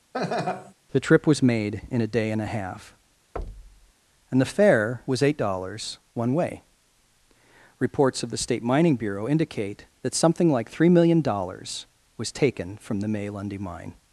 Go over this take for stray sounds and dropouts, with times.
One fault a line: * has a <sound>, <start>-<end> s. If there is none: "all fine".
* has a laugh, 0.1-0.7 s
* has a thud, 3.4-3.9 s